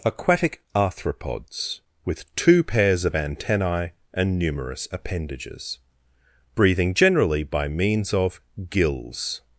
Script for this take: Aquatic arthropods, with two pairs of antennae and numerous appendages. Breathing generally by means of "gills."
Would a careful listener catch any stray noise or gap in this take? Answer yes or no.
no